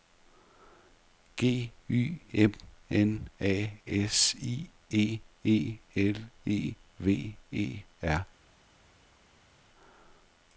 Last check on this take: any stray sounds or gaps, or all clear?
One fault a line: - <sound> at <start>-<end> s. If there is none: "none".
none